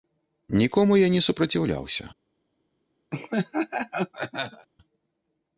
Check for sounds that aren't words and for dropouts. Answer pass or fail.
fail